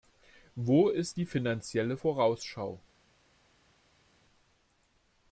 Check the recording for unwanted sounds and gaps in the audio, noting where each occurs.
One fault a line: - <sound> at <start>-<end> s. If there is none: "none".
none